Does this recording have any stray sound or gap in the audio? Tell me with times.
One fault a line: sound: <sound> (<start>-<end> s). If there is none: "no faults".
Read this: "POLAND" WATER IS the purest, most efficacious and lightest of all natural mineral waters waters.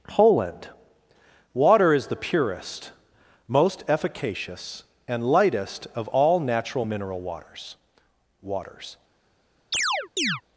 sound: chirp (9.7-10.4 s)